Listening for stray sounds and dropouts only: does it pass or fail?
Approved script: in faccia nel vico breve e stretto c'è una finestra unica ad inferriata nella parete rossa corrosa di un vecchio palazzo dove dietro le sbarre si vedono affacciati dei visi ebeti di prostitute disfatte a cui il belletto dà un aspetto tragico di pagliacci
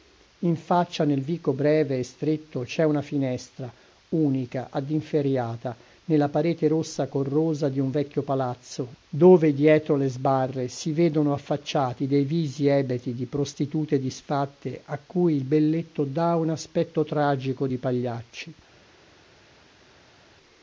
pass